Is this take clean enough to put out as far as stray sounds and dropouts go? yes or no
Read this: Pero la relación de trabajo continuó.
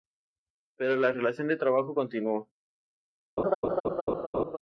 no